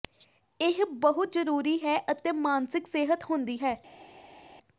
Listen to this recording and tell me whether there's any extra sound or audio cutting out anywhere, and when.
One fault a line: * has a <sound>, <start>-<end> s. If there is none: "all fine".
all fine